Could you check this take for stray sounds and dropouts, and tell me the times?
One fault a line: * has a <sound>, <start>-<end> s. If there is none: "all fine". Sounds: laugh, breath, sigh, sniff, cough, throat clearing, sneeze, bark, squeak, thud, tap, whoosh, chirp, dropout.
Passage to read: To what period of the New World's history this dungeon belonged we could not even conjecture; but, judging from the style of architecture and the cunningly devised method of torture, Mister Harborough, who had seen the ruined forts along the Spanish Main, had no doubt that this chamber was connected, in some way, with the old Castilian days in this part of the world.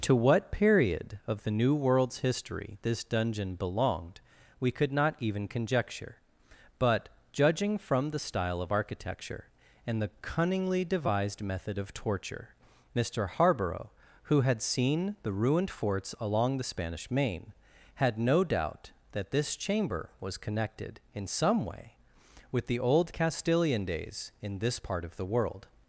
all fine